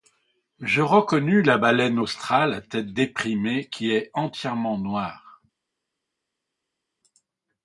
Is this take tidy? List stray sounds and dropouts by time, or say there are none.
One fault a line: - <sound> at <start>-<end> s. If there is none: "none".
none